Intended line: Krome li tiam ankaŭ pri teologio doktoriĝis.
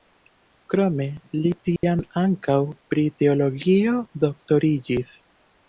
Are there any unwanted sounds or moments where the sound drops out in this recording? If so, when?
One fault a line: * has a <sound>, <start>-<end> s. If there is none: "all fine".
* has a dropout, 1.8-1.8 s